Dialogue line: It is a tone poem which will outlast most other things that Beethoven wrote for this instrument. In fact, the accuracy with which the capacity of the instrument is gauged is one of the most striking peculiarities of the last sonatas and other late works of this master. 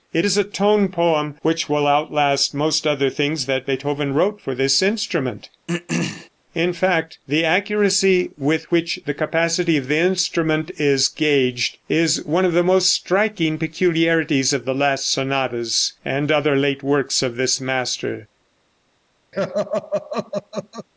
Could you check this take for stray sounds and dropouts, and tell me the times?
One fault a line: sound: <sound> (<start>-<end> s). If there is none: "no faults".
sound: throat clearing (5.7-6.3 s)
sound: laugh (19.3-20.9 s)